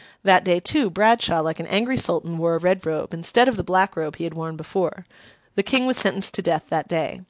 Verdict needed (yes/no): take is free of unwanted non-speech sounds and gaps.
yes